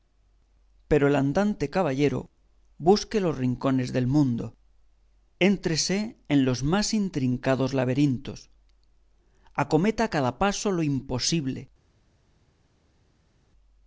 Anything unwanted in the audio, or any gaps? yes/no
no